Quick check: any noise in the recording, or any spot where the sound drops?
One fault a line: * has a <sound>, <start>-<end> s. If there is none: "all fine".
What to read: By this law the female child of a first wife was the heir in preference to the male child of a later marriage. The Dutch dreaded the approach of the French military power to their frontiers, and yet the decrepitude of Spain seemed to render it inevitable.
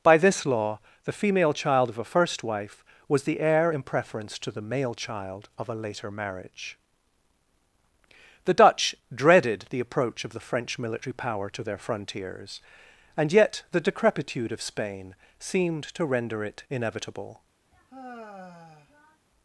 * has a sigh, 17.7-19.3 s